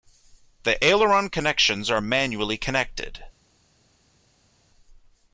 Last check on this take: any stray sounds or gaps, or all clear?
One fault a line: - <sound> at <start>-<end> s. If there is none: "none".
none